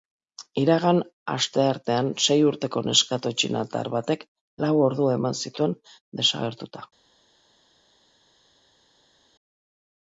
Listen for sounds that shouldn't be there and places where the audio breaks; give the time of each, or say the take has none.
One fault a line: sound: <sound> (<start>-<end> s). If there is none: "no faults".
no faults